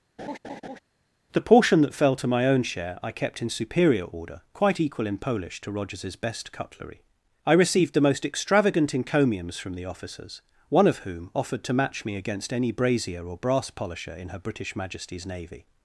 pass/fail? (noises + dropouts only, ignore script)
fail